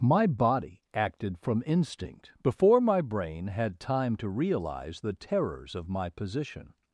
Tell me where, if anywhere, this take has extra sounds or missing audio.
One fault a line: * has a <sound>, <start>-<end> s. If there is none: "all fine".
all fine